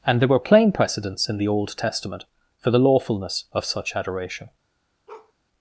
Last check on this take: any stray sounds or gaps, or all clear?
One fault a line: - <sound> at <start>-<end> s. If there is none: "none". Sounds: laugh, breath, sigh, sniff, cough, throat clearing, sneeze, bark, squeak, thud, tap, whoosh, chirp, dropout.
- bark at 5.1-5.3 s